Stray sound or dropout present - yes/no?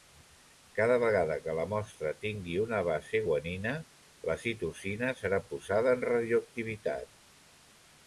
no